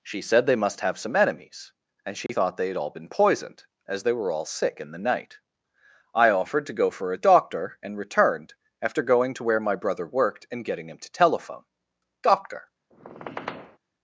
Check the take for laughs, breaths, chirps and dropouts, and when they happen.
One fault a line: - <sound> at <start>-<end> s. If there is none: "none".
- dropout at 2.3-2.3 s
- squeak at 12.9-13.8 s